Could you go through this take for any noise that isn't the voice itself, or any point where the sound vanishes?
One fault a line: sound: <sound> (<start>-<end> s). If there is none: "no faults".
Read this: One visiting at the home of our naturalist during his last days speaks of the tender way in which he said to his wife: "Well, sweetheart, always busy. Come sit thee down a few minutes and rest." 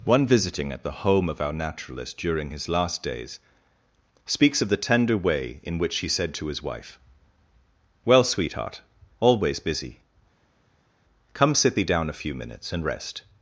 no faults